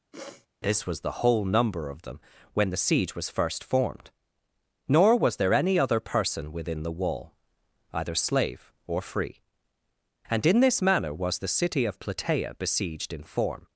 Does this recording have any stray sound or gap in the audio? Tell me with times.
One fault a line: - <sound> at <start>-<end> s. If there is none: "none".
- sniff at 0.1-0.5 s